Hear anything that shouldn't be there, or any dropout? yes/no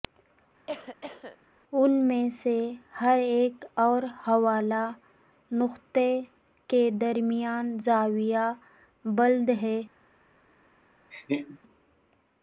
yes